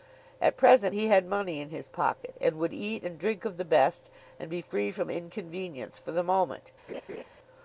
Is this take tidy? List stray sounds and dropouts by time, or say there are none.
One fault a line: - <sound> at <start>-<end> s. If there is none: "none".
- laugh at 6.9-7.2 s